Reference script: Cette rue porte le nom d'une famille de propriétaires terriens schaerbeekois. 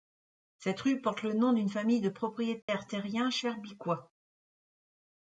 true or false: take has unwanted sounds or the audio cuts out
true